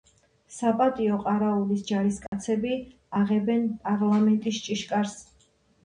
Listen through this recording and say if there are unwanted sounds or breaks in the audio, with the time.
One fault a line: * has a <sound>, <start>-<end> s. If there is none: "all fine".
* has a dropout, 2.3-2.3 s